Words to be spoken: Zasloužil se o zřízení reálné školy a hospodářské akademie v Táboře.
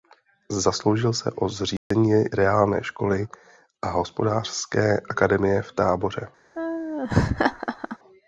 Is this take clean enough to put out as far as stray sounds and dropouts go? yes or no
no